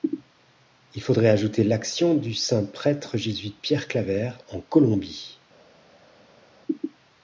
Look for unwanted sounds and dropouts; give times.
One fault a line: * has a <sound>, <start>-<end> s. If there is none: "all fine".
all fine